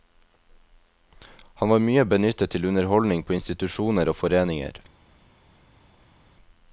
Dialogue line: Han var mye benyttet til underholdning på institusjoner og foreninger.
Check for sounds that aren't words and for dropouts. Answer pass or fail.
pass